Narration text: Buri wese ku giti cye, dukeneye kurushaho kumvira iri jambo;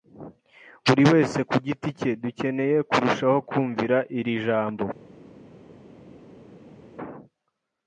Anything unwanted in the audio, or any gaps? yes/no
no